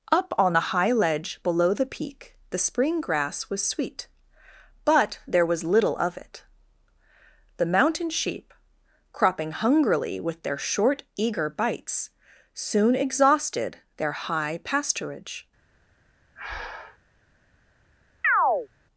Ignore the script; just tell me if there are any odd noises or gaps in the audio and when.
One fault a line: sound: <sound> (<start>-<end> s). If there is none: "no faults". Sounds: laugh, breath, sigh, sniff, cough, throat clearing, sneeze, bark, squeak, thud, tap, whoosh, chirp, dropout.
sound: breath (16.3-17.0 s)
sound: chirp (18.2-18.7 s)